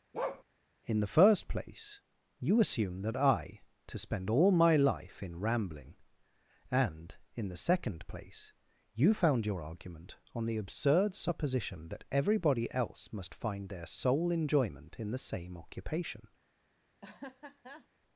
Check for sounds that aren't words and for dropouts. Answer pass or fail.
fail